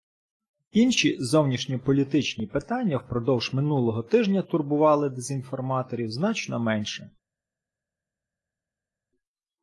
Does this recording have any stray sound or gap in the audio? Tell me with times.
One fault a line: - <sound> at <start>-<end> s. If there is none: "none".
none